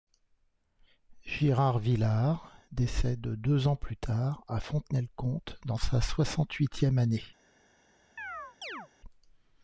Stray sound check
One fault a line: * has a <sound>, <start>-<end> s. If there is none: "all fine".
* has a chirp, 8.2-8.9 s